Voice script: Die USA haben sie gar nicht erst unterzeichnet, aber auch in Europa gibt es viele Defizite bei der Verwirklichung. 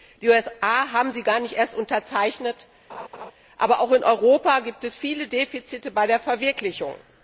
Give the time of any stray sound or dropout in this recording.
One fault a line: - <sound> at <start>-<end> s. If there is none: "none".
- laugh at 2.9-3.3 s